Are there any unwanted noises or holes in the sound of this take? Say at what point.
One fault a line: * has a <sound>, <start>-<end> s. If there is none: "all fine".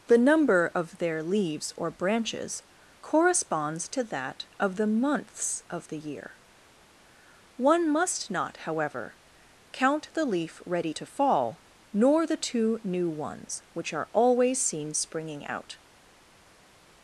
all fine